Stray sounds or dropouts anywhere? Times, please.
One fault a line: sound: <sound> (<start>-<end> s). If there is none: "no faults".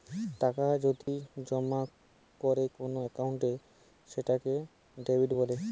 sound: dropout (1.0-1.1 s)